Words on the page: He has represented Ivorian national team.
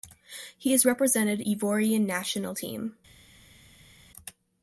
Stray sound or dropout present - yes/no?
no